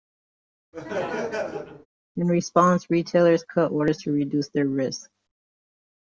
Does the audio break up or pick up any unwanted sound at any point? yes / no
yes